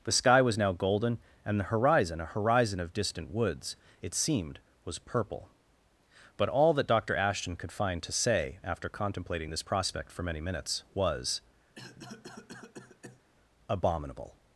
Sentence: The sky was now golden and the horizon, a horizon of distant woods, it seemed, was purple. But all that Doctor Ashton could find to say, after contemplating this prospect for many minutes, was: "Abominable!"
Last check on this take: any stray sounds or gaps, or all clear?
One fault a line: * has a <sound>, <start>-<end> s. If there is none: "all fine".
* has a cough, 11.8-13.2 s